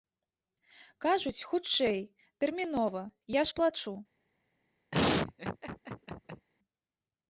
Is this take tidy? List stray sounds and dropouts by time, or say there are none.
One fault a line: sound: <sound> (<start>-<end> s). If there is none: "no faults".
sound: laugh (4.9-6.5 s)